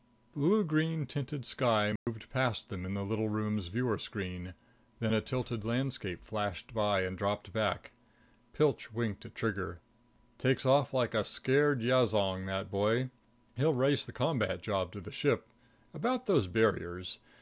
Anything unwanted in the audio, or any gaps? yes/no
yes